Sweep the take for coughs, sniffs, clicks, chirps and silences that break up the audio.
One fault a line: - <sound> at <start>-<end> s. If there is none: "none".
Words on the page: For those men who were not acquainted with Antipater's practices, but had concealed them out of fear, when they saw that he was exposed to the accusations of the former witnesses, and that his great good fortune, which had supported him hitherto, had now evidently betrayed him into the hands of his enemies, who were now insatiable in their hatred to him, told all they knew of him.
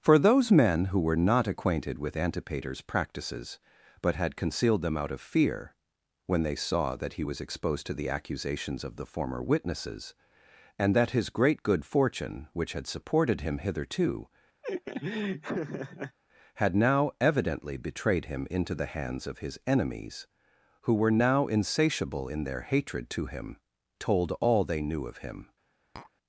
- laugh at 14.6-16.2 s
- tap at 26.0-26.1 s